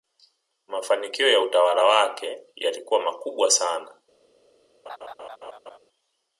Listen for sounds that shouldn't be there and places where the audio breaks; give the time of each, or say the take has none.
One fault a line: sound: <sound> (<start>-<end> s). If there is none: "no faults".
sound: laugh (4.9-5.8 s)